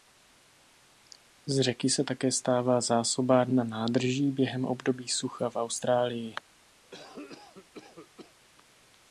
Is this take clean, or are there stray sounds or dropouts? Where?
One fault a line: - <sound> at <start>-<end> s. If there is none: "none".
- cough at 6.8-8.4 s